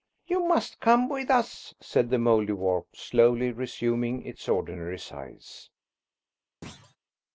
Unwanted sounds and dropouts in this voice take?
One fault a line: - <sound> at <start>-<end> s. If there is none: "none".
- thud at 6.6-7.0 s